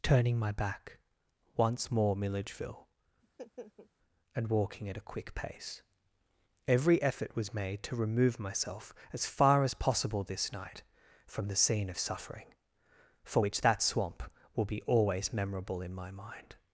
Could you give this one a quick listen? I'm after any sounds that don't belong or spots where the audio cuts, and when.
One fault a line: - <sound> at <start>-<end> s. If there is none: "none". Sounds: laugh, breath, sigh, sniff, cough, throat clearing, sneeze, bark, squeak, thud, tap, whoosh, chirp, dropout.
- laugh at 3.2-3.9 s